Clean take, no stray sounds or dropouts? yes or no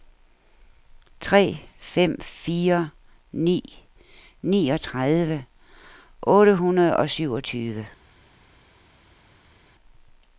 yes